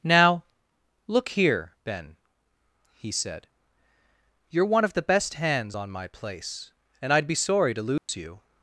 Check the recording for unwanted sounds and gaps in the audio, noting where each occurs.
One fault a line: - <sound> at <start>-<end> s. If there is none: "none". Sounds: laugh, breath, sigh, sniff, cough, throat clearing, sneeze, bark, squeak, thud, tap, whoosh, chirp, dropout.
- dropout at 8.0-8.1 s